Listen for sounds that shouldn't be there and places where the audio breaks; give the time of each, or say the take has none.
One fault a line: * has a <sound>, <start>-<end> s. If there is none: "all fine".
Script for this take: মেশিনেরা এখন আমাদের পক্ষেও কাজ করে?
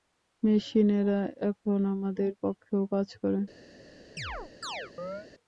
* has a chirp, 4.2-5.3 s